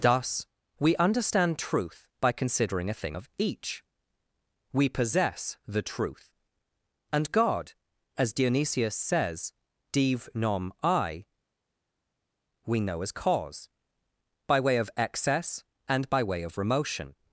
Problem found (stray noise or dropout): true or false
false